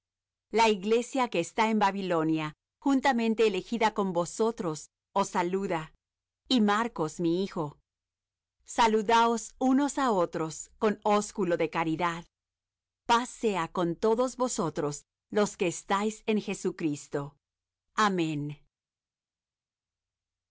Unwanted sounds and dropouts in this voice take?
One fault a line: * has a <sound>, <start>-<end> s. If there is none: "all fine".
all fine